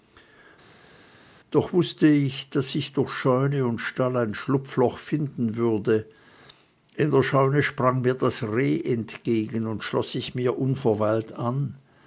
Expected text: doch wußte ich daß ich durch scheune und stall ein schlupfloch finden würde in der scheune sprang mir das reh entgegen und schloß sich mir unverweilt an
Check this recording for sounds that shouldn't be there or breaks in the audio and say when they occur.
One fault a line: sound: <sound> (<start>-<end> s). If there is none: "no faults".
no faults